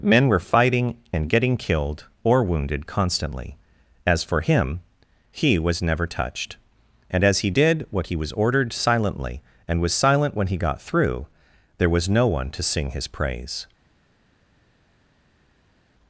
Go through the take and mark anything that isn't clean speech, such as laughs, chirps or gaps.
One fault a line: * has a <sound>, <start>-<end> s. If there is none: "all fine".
all fine